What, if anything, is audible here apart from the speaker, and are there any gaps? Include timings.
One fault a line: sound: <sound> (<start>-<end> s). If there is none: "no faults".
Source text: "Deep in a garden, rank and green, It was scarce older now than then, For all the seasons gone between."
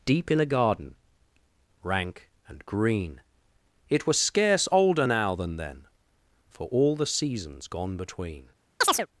sound: chirp (8.8-9.1 s)